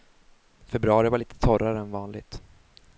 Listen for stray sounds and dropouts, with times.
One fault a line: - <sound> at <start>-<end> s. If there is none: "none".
none